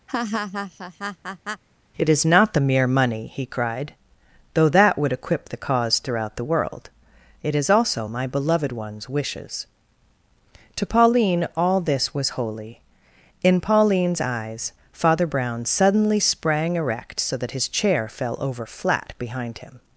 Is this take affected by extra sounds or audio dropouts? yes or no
yes